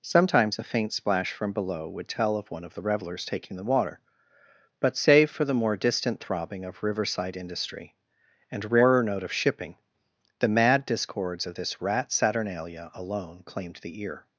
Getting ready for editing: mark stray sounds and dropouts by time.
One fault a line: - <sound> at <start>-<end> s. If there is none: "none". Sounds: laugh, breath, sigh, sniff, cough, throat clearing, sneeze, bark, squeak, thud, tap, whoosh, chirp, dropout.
none